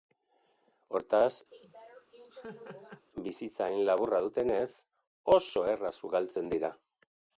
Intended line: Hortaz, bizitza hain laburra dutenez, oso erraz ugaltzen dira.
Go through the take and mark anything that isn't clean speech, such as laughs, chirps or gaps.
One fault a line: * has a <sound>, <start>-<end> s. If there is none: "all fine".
* has a laugh, 1.5-3.1 s